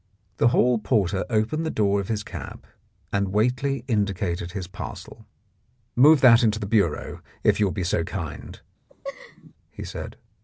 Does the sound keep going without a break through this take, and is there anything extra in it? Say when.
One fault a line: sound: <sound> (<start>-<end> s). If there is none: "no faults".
sound: laugh (8.9-9.5 s)